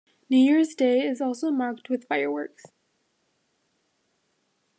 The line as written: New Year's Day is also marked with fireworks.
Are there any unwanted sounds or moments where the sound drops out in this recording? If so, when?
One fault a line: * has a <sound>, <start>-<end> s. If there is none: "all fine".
all fine